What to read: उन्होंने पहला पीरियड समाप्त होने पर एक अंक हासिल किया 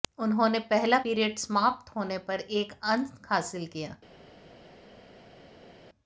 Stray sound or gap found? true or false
false